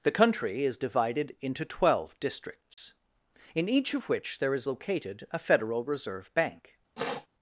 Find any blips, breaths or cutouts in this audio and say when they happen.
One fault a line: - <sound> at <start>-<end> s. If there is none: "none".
- dropout at 2.7-2.8 s
- sniff at 7.0-7.3 s